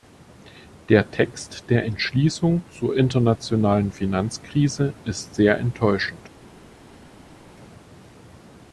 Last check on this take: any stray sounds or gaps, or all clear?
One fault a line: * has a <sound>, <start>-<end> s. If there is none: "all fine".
all fine